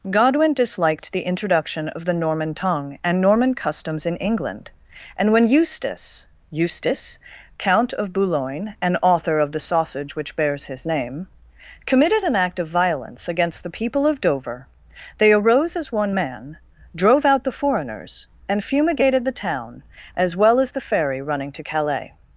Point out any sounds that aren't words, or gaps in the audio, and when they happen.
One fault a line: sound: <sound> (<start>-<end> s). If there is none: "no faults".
no faults